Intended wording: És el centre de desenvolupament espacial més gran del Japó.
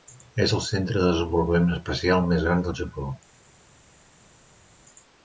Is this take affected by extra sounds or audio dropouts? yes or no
no